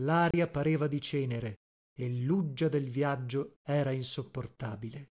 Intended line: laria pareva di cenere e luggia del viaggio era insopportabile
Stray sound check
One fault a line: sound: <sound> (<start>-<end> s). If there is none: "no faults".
sound: dropout (0.3-0.3 s)